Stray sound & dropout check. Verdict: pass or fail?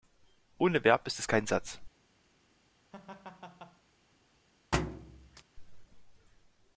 fail